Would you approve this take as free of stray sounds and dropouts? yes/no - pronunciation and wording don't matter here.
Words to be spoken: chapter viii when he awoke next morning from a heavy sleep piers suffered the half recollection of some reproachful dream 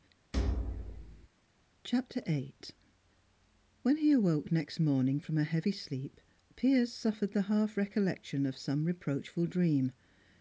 no